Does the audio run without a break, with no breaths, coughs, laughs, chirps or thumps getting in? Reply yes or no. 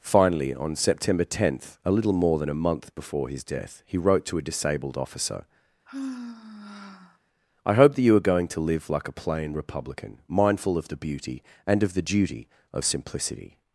no